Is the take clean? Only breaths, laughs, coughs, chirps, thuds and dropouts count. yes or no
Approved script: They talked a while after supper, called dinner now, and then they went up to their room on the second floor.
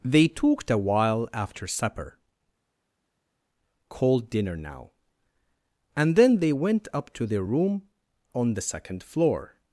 yes